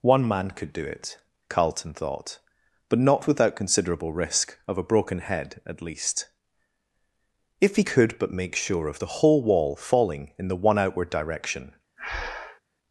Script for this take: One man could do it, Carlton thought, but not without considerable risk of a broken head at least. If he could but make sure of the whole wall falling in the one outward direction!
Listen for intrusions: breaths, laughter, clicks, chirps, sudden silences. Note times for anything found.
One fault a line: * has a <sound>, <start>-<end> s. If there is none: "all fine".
* has a breath, 12.0-12.6 s